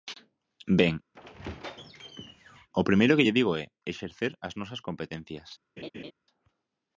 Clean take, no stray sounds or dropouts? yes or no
no